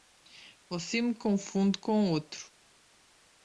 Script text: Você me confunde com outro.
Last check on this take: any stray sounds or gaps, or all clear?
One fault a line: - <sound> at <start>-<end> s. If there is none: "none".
none